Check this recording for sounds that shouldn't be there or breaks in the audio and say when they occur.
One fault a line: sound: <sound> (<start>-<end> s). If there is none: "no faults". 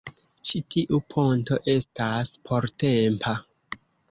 no faults